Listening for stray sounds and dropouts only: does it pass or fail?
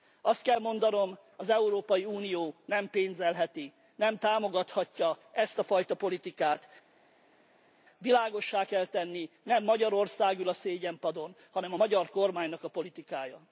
pass